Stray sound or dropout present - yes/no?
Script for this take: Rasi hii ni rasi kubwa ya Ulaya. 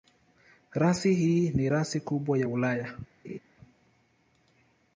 yes